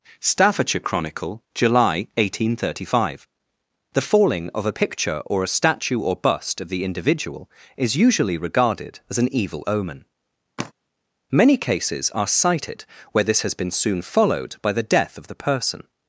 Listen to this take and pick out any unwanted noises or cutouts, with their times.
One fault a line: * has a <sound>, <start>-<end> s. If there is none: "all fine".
* has a sigh, 10.6-10.7 s